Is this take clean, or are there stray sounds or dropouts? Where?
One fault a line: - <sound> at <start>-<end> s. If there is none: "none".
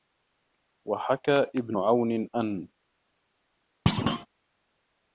- thud at 3.9-4.3 s